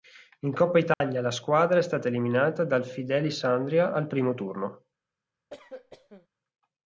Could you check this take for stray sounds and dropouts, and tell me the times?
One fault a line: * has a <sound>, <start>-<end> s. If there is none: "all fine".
* has a dropout, 0.9-1.0 s
* has a cough, 5.5-6.3 s